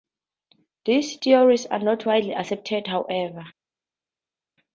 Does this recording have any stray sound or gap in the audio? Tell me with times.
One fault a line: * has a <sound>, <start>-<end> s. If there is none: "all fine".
all fine